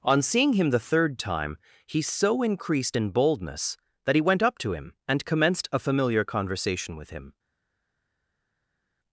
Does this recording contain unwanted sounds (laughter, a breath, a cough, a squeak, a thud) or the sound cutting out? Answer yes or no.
no